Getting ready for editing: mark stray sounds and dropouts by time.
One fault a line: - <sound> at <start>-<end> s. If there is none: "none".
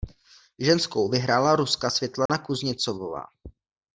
- dropout at 2.3-2.3 s